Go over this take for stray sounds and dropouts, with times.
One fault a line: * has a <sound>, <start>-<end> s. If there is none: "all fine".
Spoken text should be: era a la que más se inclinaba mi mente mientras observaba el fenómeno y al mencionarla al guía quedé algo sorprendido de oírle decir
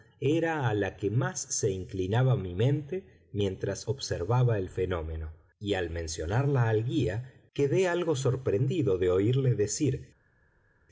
all fine